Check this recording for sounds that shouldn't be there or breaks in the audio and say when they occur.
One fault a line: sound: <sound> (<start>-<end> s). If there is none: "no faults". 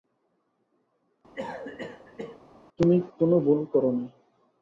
sound: cough (1.3-2.4 s)